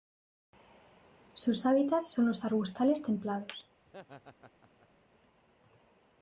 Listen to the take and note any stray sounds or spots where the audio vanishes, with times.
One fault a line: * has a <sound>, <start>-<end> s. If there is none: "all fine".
* has a laugh, 3.9-4.9 s